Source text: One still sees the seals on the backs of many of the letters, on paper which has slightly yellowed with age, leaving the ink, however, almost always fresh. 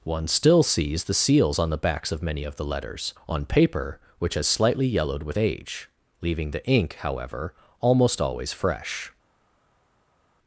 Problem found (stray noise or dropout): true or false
false